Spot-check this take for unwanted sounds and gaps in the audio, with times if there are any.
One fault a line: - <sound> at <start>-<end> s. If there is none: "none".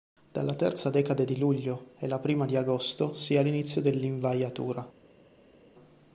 none